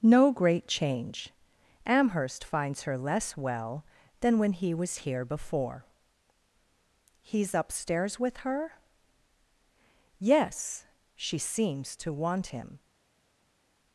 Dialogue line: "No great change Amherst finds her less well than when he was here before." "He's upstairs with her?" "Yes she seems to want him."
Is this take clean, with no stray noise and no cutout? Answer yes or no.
yes